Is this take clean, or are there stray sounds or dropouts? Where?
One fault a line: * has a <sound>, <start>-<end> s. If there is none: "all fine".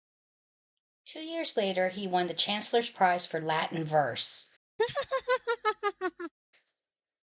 * has a laugh, 4.8-6.3 s